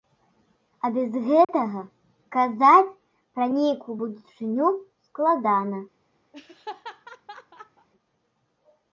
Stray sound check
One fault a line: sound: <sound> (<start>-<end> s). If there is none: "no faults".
sound: dropout (1.4-1.5 s)
sound: laugh (6.3-7.9 s)